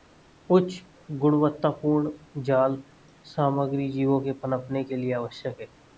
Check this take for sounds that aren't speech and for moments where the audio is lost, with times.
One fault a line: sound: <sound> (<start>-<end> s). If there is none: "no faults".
no faults